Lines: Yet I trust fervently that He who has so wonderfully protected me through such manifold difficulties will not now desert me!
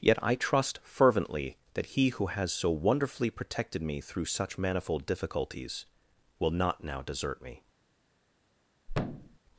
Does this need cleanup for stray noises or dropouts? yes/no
yes